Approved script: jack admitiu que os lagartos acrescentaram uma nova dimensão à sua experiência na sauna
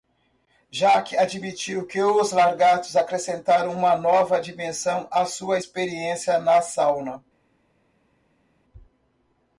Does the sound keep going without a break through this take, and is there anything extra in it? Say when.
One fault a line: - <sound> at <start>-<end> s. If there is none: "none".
none